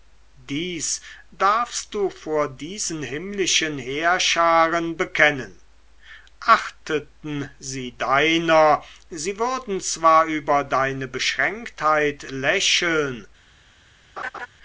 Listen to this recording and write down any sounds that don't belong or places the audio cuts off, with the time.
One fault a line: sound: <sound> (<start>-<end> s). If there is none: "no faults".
sound: laugh (14.2-14.5 s)